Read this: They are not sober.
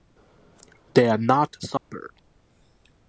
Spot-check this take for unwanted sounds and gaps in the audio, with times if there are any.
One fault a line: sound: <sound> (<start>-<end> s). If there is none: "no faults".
sound: dropout (1.8-1.9 s)